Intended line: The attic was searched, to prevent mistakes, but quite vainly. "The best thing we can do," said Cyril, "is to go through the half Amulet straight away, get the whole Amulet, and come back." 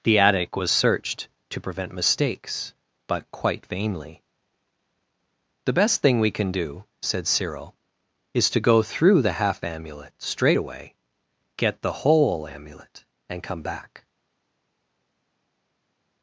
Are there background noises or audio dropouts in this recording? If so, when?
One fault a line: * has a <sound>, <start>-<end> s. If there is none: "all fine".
all fine